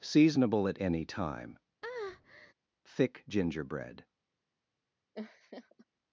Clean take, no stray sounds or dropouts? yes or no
no